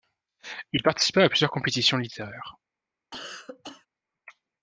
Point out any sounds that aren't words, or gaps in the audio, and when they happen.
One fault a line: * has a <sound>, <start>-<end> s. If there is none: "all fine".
* has a cough, 3.1-3.9 s